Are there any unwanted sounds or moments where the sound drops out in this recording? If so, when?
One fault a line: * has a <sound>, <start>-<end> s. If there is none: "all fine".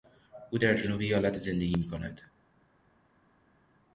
all fine